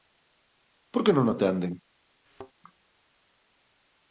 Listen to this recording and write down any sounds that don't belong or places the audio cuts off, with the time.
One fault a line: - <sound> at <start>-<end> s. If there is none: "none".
- thud at 2.3-2.5 s